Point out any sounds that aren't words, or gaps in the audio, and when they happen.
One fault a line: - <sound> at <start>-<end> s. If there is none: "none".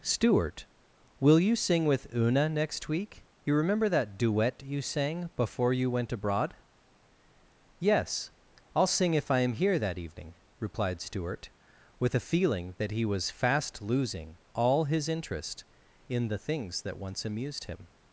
none